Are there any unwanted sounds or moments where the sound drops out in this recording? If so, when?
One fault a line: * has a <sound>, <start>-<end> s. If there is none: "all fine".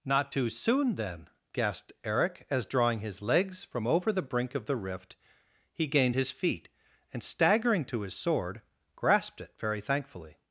all fine